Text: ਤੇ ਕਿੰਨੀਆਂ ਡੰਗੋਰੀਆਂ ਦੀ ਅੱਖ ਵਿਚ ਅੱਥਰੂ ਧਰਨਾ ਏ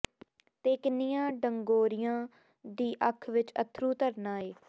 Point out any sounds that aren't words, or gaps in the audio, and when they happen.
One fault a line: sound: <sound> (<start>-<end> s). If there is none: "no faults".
no faults